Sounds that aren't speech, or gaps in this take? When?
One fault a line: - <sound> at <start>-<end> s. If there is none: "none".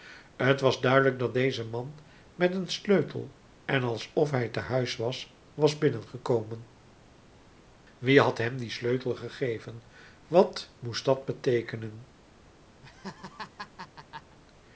- laugh at 12.8-14.4 s